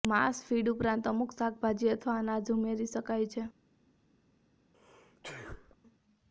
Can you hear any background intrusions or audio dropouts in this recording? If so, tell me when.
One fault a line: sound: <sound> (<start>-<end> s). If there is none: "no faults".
sound: sneeze (4.7-5.8 s)